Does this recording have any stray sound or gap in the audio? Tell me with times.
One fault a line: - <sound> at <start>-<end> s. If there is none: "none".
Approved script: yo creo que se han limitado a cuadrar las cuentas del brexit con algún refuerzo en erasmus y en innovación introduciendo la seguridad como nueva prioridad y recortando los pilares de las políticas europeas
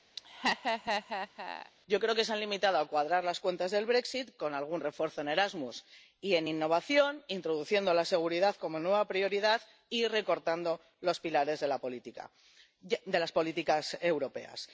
- laugh at 0.2-1.7 s